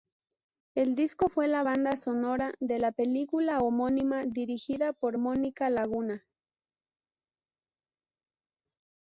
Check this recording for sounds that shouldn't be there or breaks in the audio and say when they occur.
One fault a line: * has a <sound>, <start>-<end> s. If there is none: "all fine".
all fine